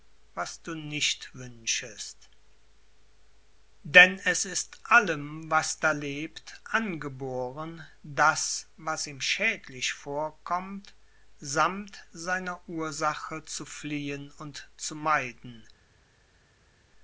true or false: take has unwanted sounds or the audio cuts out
false